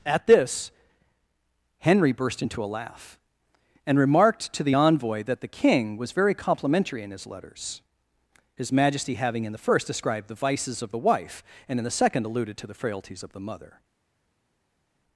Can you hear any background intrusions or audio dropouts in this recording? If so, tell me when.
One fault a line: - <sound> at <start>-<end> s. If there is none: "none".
none